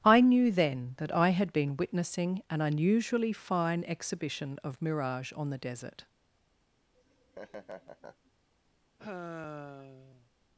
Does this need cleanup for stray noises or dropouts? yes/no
yes